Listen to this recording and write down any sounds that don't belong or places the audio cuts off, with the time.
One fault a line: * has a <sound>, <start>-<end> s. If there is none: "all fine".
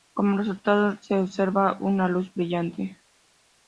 all fine